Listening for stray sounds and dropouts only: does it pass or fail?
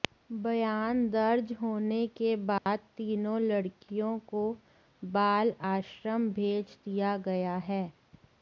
fail